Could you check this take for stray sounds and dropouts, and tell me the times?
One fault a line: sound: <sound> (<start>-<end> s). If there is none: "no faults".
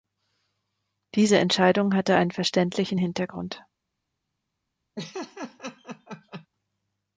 sound: laugh (5.0-6.5 s)